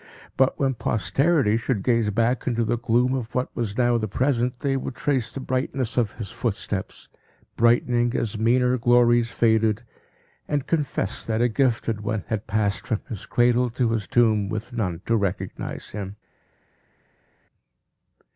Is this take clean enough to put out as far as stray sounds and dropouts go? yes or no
yes